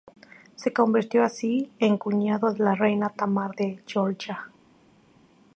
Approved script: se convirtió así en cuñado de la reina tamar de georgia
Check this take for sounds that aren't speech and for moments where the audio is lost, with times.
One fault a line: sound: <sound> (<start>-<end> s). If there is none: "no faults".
no faults